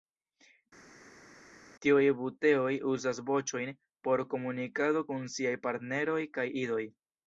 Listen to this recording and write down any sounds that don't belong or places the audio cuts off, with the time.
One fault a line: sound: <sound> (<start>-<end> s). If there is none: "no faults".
no faults